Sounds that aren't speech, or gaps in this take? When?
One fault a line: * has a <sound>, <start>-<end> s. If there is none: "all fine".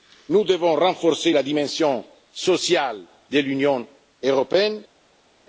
all fine